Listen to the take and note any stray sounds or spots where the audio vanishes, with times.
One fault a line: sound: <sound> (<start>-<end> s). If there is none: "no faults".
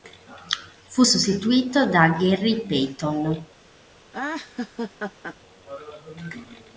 sound: laugh (4.1-5.4 s)